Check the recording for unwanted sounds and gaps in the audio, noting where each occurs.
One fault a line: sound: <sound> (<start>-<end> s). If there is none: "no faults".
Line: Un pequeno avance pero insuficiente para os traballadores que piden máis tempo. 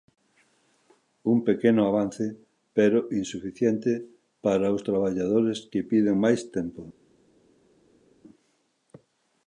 no faults